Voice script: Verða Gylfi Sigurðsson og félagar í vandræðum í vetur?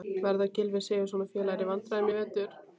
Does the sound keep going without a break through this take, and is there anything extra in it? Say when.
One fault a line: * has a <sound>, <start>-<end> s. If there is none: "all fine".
all fine